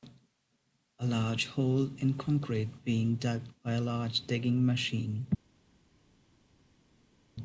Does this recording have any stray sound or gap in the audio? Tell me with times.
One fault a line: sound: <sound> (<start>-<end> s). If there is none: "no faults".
no faults